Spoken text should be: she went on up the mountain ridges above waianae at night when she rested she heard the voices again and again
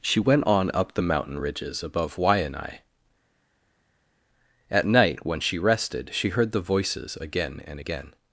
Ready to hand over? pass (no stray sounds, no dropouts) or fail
pass